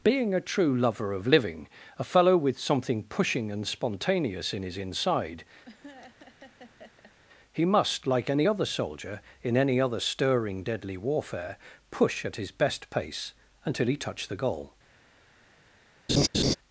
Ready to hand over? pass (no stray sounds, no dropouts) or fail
fail